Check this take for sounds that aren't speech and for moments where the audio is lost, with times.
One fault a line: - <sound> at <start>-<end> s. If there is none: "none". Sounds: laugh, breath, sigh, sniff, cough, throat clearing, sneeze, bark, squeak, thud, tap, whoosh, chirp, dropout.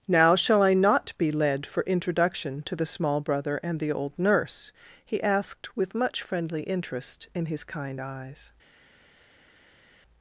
none